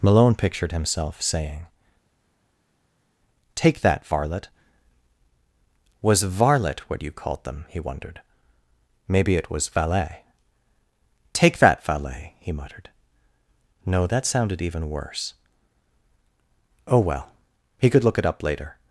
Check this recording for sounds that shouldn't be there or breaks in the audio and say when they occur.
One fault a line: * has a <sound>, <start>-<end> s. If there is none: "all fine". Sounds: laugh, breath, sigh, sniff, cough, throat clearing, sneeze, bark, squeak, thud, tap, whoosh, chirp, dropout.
all fine